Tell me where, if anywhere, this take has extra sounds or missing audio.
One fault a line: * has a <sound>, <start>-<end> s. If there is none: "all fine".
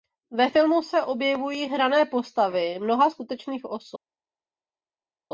all fine